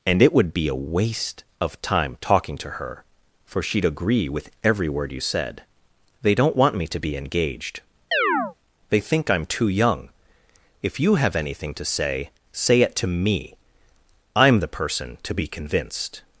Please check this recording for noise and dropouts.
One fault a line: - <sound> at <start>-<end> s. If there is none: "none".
- chirp at 8.1-8.6 s